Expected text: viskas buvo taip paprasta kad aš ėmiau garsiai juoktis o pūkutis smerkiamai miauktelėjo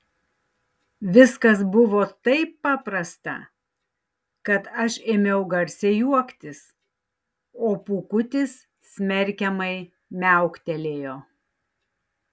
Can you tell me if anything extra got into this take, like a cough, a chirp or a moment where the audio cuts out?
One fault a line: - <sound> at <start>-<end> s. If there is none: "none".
none